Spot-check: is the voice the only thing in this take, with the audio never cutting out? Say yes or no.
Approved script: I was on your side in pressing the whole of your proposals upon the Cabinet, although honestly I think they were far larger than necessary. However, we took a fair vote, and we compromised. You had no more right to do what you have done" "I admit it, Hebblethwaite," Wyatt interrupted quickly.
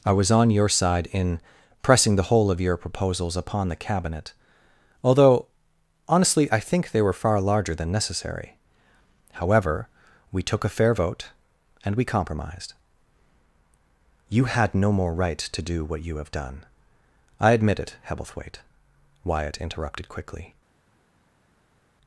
yes